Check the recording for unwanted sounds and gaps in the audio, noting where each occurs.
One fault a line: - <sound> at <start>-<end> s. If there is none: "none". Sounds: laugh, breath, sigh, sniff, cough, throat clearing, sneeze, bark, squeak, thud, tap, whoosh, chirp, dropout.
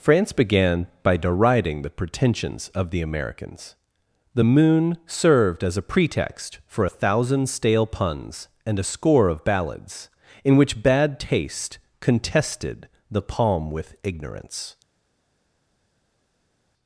none